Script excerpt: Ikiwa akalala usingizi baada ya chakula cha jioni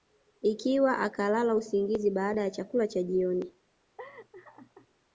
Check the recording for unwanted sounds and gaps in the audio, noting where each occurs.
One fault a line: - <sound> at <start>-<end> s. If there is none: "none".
- laugh at 4.0-4.9 s